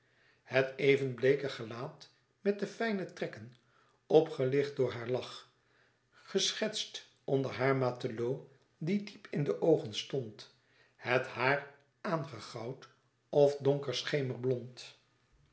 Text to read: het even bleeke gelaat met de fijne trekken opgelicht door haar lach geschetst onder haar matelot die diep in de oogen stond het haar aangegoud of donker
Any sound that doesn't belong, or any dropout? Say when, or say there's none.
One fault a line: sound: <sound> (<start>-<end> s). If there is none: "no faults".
no faults